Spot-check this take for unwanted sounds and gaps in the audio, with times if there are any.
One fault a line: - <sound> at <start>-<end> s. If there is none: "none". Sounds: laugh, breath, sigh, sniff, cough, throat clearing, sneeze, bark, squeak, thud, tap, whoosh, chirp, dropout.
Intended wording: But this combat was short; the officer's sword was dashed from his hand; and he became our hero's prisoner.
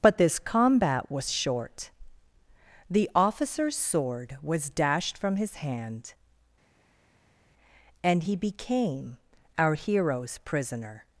none